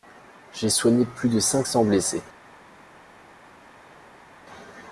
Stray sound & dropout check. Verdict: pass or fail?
pass